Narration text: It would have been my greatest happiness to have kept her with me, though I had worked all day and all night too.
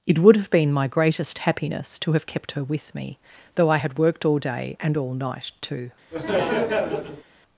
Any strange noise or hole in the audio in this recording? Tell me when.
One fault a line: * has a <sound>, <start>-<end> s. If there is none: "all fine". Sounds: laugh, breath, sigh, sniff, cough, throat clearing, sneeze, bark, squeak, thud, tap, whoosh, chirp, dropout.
* has a laugh, 6.1-7.2 s